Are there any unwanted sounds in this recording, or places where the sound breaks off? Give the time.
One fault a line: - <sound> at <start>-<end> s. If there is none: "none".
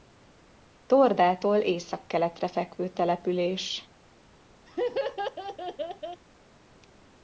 - laugh at 4.7-6.2 s